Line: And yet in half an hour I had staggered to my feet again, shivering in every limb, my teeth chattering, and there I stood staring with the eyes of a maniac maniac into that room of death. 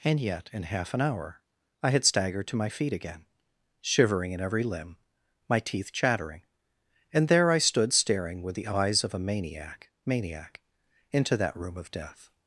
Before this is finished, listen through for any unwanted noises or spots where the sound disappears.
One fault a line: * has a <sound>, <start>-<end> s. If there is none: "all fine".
all fine